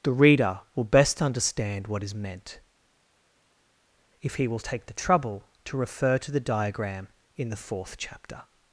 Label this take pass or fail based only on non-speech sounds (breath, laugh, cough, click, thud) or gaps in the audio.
pass